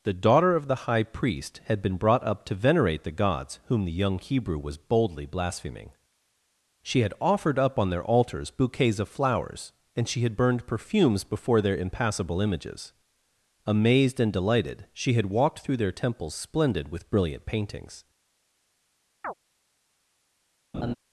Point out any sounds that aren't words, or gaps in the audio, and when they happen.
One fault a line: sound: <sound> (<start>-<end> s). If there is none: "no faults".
sound: chirp (19.2-19.3 s)
sound: laugh (20.7-20.9 s)